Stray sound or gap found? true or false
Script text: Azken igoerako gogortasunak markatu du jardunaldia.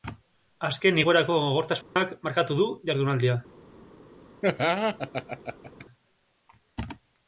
true